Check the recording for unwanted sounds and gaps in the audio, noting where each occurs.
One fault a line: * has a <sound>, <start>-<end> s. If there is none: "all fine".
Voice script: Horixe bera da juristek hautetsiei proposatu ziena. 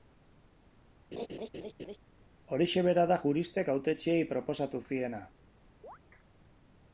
* has a laugh, 1.1-2.0 s
* has a chirp, 5.8-6.0 s